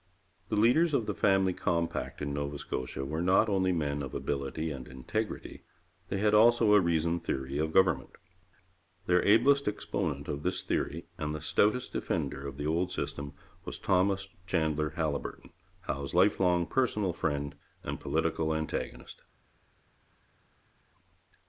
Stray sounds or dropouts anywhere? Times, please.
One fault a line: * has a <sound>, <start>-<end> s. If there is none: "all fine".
all fine